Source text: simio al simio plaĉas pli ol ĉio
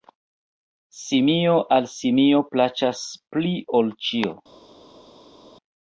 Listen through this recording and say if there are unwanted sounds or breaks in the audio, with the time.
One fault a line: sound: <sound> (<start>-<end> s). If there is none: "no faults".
no faults